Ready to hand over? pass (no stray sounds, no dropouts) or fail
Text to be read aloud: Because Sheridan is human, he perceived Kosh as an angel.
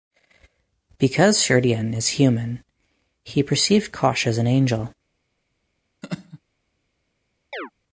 fail